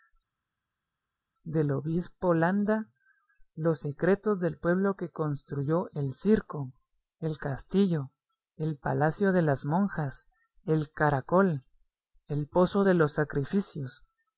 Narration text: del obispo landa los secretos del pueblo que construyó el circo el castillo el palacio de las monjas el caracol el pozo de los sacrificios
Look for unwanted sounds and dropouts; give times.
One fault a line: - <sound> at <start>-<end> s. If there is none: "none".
none